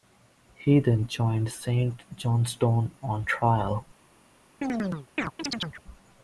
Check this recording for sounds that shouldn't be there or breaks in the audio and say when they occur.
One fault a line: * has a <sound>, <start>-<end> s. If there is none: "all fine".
* has a chirp, 4.6-5.8 s